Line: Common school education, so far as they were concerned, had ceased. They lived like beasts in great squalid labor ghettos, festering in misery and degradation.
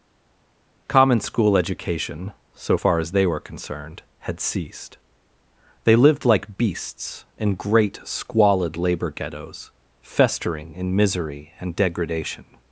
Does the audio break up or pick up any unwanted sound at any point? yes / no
no